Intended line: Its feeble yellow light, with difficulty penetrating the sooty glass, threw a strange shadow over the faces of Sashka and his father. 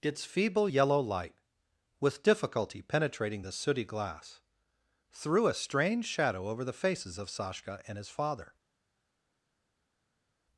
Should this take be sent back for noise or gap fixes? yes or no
no